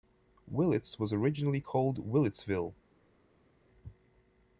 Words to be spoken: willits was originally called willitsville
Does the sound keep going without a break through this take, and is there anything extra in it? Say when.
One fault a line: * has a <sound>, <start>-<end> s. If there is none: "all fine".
all fine